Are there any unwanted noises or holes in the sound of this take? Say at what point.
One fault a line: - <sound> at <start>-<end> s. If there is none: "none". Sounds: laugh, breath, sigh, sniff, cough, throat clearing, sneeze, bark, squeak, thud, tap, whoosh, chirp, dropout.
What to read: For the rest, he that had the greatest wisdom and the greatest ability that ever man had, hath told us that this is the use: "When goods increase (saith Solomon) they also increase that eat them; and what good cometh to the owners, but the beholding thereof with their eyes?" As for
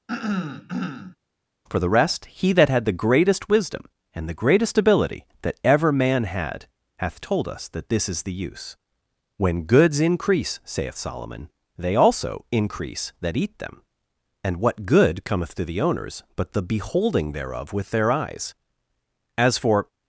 - throat clearing at 0.1-1.2 s